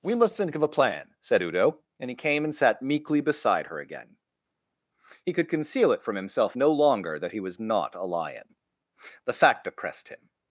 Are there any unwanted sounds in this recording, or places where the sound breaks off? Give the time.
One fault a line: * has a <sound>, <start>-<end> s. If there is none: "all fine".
all fine